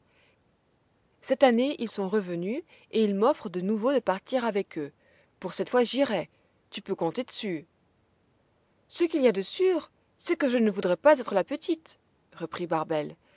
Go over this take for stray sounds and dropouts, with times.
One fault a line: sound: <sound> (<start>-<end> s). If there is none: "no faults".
no faults